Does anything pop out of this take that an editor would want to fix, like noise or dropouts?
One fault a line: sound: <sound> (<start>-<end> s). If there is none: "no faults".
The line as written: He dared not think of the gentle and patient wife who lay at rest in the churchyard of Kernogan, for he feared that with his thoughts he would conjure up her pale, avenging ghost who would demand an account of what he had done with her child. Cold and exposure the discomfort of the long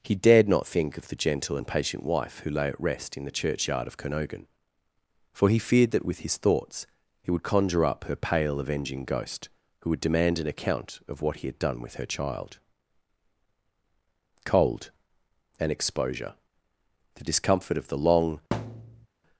sound: thud (18.5-19.1 s)